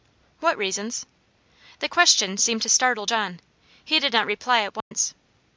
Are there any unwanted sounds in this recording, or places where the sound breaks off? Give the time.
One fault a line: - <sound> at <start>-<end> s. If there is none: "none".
- dropout at 4.8-4.9 s